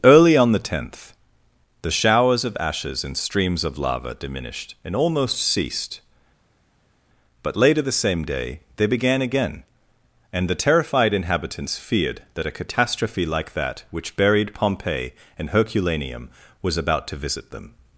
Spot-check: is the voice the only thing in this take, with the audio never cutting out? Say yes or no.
yes